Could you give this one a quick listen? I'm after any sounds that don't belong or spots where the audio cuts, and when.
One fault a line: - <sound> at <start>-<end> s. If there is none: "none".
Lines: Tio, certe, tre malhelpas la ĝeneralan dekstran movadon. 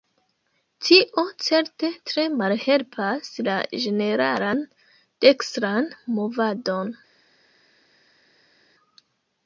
none